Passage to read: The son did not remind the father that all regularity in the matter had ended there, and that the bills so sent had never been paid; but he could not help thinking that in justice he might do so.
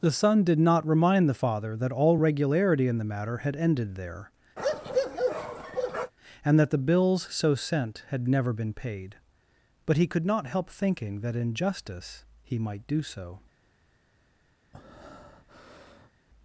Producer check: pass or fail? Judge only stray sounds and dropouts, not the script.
fail